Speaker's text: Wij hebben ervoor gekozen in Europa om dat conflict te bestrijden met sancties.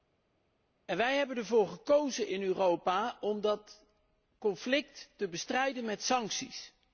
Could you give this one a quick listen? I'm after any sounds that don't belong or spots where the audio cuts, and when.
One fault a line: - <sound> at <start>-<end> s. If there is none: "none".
none